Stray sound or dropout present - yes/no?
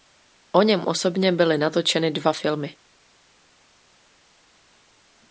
no